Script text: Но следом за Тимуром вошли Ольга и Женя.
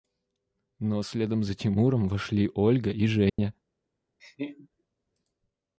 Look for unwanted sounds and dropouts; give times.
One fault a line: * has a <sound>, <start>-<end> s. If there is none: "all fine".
* has a dropout, 3.3-3.4 s
* has a laugh, 4.2-4.7 s